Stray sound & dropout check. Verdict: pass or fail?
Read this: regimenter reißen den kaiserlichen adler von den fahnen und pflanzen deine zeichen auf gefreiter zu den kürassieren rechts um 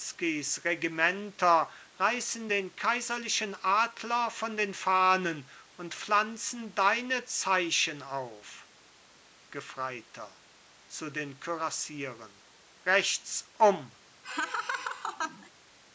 fail